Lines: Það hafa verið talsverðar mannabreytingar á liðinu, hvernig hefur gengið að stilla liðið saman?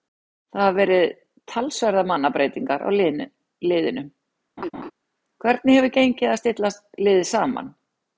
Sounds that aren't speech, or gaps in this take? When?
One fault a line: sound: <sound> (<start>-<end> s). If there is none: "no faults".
sound: laugh (4.6-4.9 s)